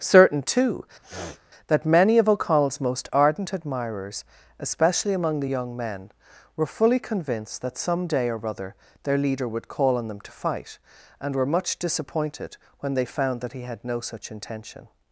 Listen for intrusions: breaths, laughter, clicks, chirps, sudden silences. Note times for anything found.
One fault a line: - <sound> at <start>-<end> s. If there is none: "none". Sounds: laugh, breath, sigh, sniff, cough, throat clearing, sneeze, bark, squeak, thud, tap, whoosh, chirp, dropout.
- sniff at 1.0-1.4 s